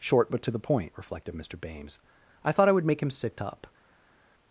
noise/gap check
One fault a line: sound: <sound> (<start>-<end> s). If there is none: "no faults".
no faults